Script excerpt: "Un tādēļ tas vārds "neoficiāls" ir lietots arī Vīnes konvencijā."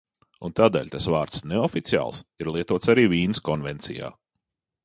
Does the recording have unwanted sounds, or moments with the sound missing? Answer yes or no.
no